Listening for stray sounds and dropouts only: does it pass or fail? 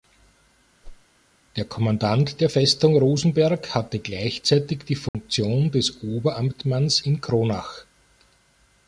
fail